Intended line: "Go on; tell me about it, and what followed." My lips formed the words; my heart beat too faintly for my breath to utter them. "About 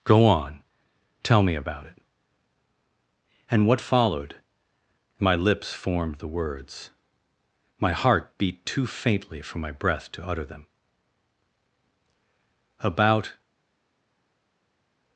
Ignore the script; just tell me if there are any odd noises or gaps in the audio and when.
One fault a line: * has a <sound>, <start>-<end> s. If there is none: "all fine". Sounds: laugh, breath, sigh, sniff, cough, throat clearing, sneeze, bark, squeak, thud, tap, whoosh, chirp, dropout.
all fine